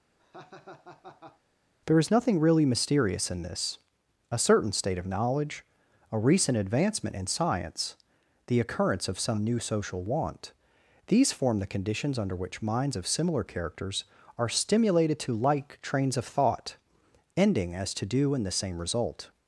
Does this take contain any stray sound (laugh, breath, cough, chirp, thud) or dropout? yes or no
yes